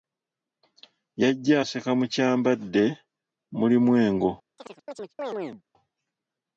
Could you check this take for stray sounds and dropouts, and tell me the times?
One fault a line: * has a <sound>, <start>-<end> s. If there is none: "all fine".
* has a chirp, 4.6-5.6 s